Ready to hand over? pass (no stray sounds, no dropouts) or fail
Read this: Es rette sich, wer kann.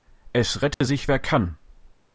fail